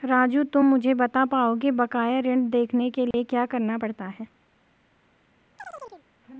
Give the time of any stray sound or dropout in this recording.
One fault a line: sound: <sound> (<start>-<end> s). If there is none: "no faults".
sound: dropout (3.1-3.1 s)
sound: chirp (5.6-6.1 s)